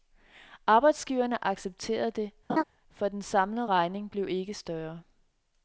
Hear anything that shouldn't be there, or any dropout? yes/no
yes